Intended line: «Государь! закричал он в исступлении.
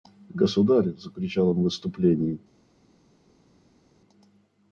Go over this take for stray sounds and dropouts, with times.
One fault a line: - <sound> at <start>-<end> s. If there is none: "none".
none